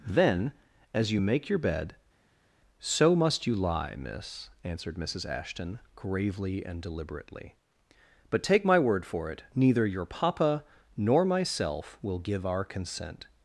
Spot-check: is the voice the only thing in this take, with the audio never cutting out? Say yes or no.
yes